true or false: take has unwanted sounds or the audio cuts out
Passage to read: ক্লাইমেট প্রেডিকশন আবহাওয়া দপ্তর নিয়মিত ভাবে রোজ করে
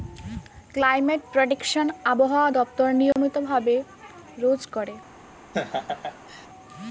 true